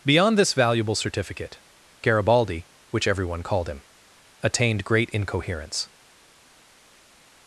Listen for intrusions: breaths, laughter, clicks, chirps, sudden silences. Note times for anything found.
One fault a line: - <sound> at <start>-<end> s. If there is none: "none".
none